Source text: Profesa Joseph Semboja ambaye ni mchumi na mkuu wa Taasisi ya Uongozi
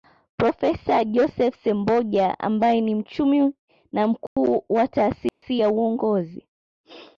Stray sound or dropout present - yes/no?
yes